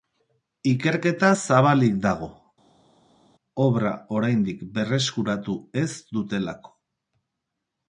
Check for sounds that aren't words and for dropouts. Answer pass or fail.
pass